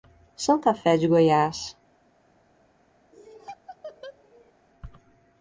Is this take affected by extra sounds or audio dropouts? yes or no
yes